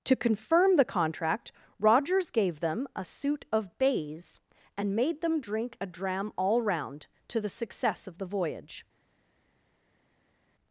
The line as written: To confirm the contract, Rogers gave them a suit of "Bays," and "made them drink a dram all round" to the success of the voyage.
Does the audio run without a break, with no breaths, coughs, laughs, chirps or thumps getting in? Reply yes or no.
yes